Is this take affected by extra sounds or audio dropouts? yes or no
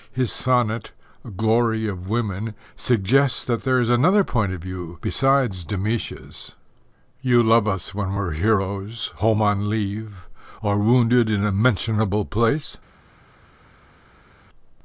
no